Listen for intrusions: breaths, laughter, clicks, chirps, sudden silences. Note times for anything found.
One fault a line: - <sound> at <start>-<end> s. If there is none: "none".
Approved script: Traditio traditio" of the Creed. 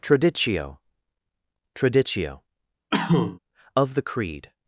- cough at 2.9-3.4 s